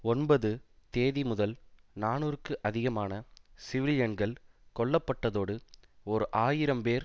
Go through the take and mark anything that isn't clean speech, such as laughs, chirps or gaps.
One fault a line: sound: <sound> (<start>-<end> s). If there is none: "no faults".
no faults